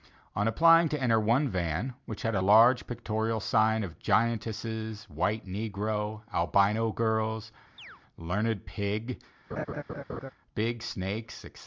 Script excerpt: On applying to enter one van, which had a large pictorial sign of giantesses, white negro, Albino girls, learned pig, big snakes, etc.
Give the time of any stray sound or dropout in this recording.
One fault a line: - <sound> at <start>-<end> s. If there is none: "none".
- chirp at 7.8-8.0 s
- laugh at 9.5-10.3 s